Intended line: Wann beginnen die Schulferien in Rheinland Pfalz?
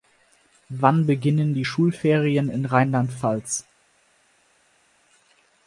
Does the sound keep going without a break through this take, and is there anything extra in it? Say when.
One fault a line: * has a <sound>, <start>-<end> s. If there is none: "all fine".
all fine